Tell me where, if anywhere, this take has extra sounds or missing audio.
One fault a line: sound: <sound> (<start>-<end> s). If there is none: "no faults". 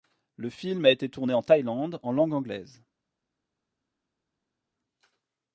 no faults